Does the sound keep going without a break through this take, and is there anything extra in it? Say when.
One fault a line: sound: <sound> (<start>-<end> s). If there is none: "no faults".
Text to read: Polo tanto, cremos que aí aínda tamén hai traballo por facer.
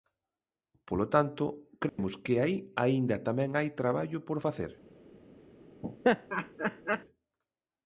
sound: dropout (1.9-2.0 s)
sound: laugh (5.8-7.0 s)